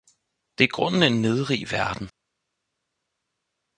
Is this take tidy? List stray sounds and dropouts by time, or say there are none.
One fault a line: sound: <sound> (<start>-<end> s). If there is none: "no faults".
no faults